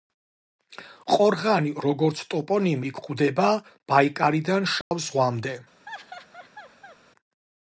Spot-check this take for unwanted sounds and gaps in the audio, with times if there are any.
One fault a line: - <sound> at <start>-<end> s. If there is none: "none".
- dropout at 4.8-4.9 s
- laugh at 5.9-7.0 s